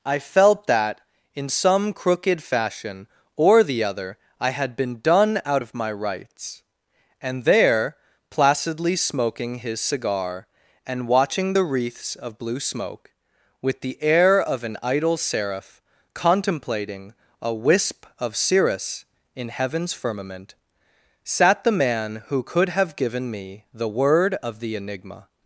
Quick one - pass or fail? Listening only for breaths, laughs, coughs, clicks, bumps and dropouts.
pass